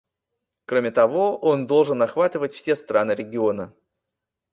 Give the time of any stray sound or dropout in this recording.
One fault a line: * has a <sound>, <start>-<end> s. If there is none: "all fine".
all fine